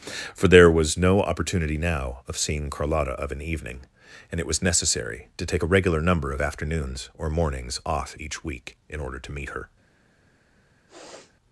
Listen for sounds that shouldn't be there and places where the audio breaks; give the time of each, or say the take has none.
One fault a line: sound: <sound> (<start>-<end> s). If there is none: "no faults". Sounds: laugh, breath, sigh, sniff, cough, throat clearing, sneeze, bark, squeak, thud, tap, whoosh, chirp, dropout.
sound: sniff (10.9-11.4 s)